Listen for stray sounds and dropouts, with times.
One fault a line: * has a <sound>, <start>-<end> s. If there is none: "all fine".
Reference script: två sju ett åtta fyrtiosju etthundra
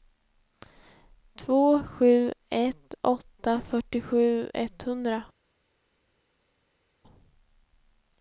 all fine